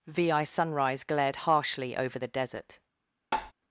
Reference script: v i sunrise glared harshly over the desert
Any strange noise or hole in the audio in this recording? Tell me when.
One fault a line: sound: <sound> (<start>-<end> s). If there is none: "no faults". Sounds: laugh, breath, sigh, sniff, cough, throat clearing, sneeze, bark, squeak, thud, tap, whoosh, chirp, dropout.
sound: tap (3.3-3.5 s)